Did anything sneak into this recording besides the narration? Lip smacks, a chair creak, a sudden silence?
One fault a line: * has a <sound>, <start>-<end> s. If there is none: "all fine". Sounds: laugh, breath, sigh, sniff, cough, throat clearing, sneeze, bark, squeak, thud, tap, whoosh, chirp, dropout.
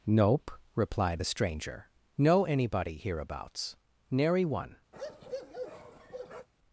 * has a bark, 4.9-6.5 s